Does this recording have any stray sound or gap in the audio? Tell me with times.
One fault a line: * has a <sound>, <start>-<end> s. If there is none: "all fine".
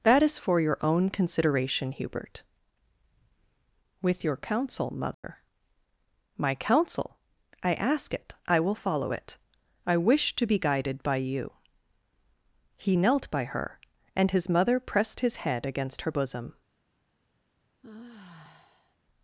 * has a dropout, 5.1-5.2 s
* has a sigh, 17.8-19.0 s